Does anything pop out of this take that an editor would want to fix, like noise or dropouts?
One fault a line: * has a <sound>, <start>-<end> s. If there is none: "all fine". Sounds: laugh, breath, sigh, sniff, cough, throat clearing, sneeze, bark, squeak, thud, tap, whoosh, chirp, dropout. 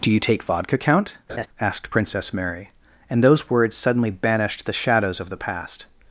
* has a laugh, 1.3-1.5 s